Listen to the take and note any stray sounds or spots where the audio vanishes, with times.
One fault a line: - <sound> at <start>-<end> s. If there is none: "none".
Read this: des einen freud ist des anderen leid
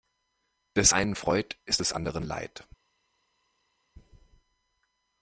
none